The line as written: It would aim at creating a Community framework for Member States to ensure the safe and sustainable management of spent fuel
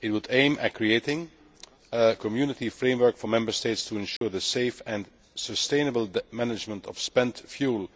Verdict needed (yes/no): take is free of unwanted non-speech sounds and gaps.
no